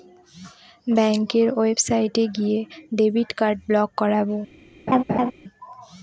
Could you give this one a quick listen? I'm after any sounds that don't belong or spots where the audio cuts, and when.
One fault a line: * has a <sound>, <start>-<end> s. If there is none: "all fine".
* has a laugh, 4.9-5.3 s